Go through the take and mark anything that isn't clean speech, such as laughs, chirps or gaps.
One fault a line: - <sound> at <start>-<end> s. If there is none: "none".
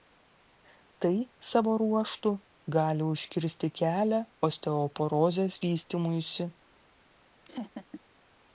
- laugh at 7.4-8.0 s